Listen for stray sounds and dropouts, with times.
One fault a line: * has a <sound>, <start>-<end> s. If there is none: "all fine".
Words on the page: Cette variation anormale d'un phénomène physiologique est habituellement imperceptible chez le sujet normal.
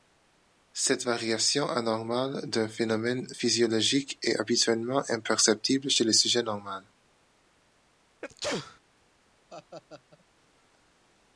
* has a sneeze, 8.2-8.8 s
* has a laugh, 9.5-10.3 s